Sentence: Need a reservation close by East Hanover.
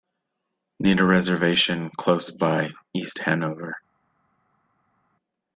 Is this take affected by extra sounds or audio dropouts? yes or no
no